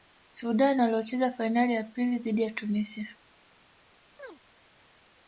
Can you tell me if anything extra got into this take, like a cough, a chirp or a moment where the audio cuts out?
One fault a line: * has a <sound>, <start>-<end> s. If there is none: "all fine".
* has a chirp, 4.2-4.4 s